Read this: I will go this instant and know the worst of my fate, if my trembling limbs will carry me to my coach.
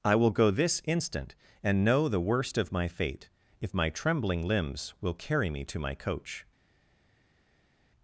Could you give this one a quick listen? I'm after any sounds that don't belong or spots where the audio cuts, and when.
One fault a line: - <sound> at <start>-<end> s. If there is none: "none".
none